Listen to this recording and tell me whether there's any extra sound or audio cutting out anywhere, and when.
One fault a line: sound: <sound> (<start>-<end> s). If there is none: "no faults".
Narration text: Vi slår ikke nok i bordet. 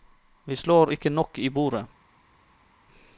no faults